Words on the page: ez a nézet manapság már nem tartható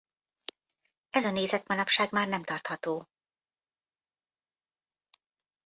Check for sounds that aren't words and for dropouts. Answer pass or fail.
pass